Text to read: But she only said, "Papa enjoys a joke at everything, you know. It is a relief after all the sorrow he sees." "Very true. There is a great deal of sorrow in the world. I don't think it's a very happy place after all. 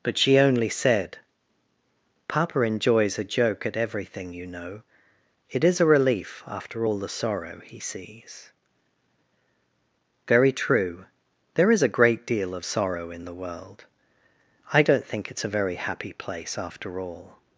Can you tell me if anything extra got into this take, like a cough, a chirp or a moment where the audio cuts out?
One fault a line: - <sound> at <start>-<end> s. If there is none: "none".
none